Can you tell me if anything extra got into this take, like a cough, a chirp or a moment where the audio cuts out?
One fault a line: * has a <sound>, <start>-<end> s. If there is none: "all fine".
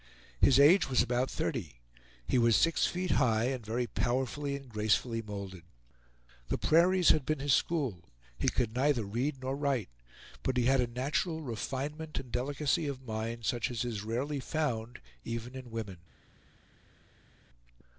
all fine